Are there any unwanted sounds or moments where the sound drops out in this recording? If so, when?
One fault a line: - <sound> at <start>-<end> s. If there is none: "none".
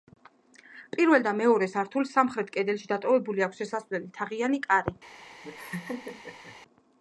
- laugh at 5.4-6.6 s